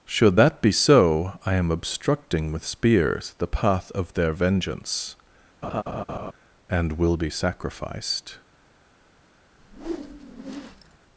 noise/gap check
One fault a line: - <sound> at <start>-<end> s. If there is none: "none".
- laugh at 5.6-6.3 s
- whoosh at 9.6-11.0 s